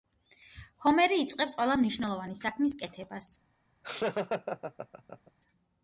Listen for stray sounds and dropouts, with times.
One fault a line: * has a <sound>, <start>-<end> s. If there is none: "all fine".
* has a laugh, 3.8-5.3 s